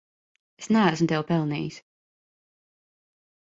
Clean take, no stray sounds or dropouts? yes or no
yes